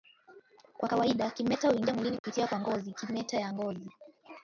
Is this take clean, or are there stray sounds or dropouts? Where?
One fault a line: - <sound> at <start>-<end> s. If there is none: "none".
- dropout at 2.2-2.2 s